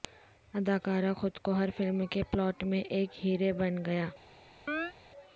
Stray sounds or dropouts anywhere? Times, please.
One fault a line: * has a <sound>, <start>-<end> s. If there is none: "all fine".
* has a chirp, 4.7-4.9 s